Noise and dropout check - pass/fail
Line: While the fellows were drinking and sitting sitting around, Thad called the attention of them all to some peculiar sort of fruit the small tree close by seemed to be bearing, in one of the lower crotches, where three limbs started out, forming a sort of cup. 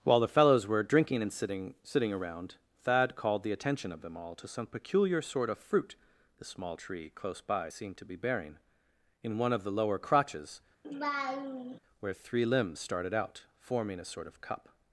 fail